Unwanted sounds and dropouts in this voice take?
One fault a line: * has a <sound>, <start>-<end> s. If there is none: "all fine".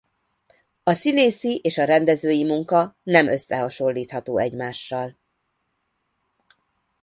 all fine